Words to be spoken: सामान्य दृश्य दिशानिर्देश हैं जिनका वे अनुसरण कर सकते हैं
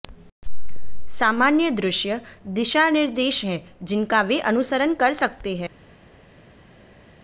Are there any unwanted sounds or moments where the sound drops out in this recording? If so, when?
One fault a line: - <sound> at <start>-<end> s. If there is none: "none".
none